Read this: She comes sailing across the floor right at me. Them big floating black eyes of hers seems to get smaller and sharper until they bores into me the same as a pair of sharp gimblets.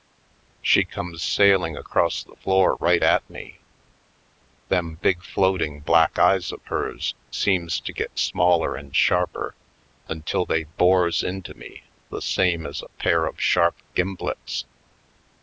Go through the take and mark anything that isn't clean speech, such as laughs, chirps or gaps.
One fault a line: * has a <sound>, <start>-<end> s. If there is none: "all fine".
all fine